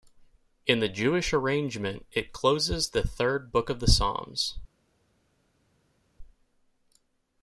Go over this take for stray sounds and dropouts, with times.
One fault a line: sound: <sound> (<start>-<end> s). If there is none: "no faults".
no faults